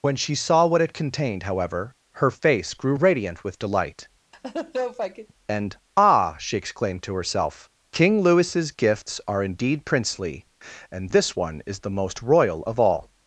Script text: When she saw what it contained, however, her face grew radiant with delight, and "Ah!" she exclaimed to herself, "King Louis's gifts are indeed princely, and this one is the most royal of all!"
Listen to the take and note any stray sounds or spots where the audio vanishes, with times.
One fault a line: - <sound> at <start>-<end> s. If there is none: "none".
- laugh at 4.3-5.3 s